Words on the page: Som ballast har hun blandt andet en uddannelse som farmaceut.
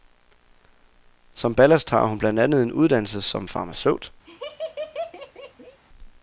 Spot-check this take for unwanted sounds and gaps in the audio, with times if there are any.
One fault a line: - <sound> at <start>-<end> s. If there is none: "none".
- laugh at 4.2-5.8 s